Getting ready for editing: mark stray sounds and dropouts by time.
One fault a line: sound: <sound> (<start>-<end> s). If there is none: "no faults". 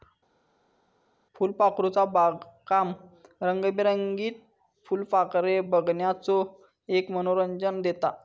no faults